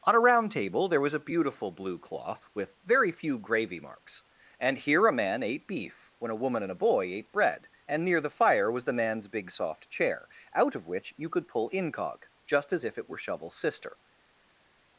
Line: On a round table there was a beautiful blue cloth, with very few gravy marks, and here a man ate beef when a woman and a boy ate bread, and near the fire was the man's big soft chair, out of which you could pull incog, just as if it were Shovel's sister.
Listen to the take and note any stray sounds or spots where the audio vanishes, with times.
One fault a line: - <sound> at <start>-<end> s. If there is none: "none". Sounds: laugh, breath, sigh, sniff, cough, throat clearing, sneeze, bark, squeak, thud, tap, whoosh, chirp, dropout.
none